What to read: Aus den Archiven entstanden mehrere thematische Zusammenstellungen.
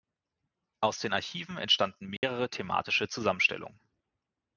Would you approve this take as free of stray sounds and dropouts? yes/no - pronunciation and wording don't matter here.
no